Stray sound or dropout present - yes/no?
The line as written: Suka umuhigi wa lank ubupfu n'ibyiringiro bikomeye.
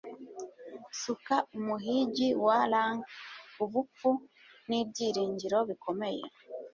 no